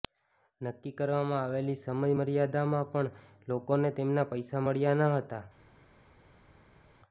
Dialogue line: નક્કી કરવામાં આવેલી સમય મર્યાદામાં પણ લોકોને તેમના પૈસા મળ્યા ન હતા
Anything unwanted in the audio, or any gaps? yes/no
no